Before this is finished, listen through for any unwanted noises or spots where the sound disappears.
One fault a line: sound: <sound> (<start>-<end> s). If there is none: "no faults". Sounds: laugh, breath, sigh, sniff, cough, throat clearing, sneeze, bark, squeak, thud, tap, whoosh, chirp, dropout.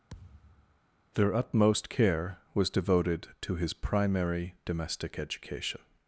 sound: thud (0.1-0.8 s)